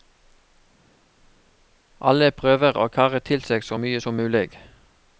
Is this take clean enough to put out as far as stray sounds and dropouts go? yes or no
yes